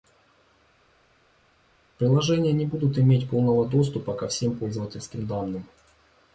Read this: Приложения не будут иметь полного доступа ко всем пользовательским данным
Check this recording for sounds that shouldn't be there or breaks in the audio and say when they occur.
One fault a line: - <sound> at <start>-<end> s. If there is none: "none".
none